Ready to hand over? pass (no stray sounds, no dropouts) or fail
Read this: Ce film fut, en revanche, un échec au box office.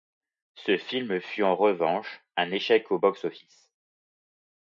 pass